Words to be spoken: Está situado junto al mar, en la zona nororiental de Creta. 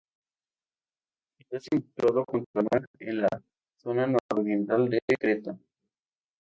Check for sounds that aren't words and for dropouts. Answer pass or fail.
pass